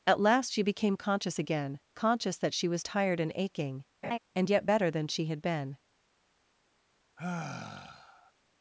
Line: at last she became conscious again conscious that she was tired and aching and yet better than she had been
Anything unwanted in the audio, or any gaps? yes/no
yes